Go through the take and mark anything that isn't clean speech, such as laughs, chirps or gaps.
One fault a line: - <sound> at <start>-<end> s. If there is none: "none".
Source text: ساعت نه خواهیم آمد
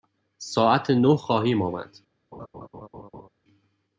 - laugh at 2.3-3.3 s